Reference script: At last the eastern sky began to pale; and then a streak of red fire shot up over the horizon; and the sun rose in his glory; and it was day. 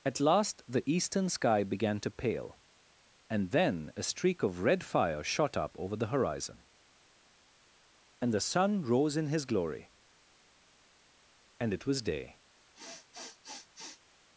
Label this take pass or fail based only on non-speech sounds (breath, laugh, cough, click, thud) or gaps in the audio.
fail